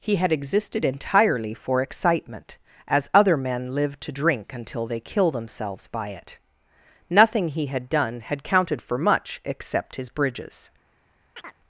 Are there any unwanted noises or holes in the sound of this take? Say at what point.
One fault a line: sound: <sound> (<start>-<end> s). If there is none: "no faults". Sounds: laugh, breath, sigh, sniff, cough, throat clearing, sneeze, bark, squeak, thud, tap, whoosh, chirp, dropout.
sound: chirp (11.4-11.6 s)